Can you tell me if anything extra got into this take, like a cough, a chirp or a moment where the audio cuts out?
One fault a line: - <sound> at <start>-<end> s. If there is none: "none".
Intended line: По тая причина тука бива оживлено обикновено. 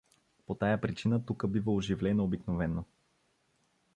none